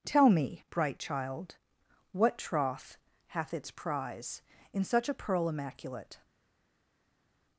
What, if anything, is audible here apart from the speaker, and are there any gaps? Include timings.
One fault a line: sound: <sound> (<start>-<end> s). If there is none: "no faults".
no faults